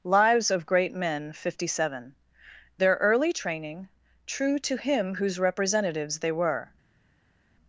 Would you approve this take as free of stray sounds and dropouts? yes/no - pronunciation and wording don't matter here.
yes